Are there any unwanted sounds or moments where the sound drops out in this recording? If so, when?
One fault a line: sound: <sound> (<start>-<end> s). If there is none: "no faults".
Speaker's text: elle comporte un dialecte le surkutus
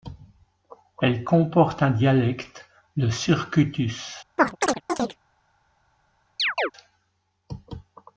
sound: chirp (4.4-5.2 s)
sound: chirp (6.4-6.7 s)